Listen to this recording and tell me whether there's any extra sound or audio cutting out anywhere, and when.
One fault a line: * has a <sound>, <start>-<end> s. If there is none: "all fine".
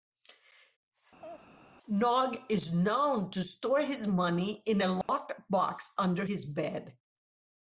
* has a laugh, 1.2-1.5 s
* has a dropout, 5.0-5.1 s